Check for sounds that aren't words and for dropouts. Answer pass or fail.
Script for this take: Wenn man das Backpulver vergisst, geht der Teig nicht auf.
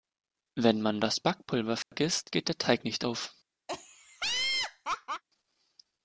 fail